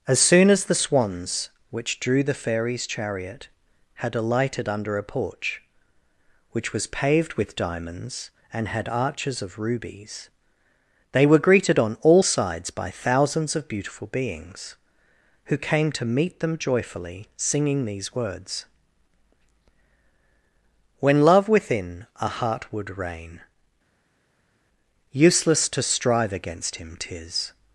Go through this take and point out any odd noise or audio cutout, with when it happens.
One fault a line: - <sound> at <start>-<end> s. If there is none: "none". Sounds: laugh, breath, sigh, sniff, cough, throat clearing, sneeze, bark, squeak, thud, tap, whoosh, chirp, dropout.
none